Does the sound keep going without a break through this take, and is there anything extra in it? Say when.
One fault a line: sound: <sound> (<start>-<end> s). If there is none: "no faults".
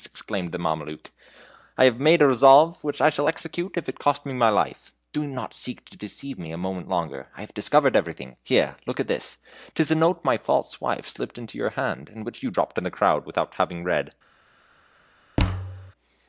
sound: thud (15.4-15.9 s)